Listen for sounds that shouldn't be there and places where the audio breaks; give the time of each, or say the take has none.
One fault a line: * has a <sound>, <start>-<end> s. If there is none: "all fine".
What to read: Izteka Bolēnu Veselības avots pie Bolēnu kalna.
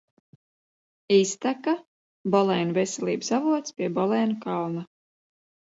all fine